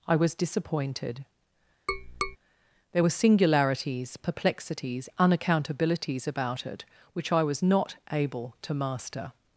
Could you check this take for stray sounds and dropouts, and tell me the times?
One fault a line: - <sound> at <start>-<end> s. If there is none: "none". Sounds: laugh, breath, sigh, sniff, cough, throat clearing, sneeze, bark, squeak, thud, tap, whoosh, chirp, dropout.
- tap at 1.9-2.4 s